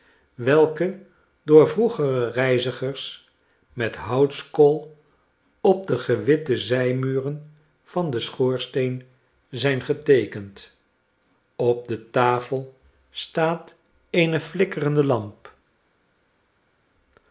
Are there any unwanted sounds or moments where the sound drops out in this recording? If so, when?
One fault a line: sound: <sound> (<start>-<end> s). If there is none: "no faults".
no faults